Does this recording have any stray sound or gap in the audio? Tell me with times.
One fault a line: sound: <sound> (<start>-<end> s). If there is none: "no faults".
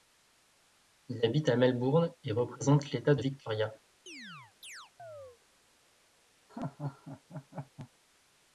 sound: chirp (4.1-5.4 s)
sound: laugh (6.5-7.9 s)